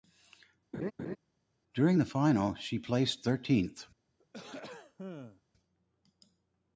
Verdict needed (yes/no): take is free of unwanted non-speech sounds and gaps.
no